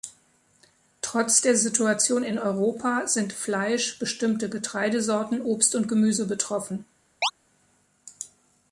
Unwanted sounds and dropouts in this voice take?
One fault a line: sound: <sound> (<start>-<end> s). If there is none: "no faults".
sound: chirp (7.2-7.3 s)